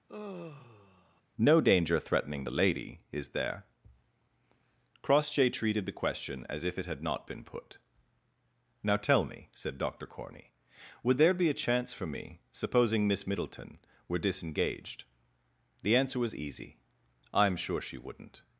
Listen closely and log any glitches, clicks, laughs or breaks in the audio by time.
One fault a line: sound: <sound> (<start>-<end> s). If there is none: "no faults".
sound: sigh (0.1-1.2 s)